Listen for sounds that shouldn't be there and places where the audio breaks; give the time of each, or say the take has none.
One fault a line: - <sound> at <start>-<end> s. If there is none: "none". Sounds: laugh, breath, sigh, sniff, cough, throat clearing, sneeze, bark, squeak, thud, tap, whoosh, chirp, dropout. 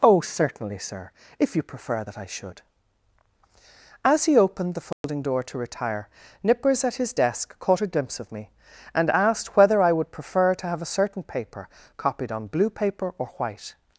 - dropout at 4.9-5.0 s